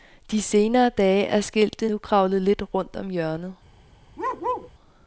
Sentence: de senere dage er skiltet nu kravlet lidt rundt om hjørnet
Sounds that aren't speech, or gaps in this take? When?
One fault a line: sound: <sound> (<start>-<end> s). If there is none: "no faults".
sound: bark (4.2-4.7 s)